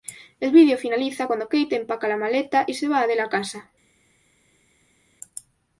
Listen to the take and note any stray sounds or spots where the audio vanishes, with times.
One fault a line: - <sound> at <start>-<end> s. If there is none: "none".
none